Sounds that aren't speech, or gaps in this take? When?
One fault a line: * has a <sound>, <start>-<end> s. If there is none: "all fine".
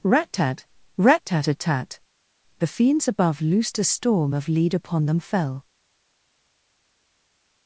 all fine